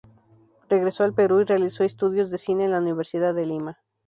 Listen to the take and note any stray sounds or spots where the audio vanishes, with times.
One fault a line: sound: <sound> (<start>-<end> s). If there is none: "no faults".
no faults